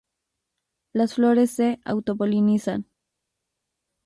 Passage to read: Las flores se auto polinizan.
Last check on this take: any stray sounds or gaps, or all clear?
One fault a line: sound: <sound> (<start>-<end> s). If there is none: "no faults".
no faults